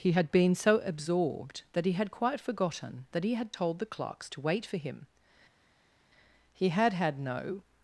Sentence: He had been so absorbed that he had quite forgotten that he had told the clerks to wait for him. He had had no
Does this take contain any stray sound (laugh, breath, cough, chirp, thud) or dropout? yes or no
no